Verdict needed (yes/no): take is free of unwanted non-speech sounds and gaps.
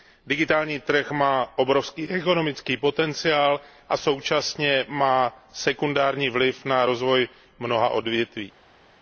yes